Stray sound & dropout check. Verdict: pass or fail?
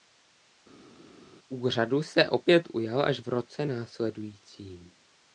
pass